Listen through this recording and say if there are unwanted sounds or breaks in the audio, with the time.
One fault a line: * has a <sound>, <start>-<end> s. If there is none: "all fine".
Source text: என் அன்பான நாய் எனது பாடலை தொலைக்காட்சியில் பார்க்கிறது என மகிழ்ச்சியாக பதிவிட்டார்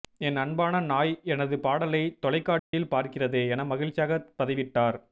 * has a dropout, 2.6-2.7 s